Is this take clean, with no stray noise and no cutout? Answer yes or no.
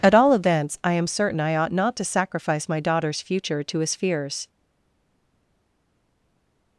yes